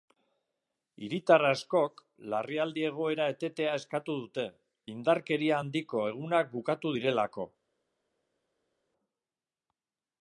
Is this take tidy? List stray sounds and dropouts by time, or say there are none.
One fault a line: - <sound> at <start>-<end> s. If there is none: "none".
none